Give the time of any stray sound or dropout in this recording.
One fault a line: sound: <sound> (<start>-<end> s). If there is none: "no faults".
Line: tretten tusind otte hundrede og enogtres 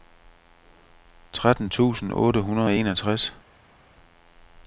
no faults